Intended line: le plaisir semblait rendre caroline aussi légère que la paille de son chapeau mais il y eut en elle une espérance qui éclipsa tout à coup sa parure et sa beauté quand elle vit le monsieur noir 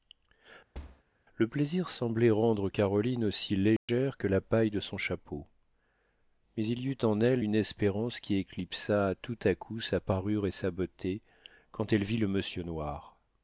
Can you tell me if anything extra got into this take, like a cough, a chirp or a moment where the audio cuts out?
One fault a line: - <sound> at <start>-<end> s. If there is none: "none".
- thud at 0.7-1.0 s
- dropout at 3.8-3.9 s